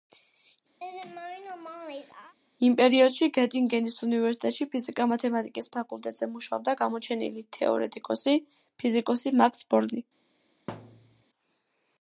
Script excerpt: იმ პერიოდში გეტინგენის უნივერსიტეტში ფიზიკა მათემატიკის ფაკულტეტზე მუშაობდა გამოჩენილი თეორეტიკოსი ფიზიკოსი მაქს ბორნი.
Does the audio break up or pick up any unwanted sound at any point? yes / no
yes